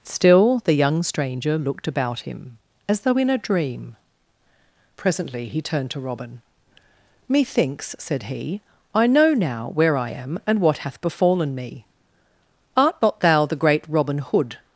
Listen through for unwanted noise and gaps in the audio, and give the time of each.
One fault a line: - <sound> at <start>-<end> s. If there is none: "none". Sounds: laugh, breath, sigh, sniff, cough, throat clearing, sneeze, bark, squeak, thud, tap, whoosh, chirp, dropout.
none